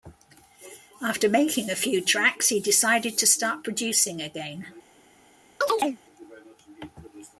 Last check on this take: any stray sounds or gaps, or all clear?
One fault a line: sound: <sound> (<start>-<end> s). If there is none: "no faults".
sound: chirp (5.6-6.0 s)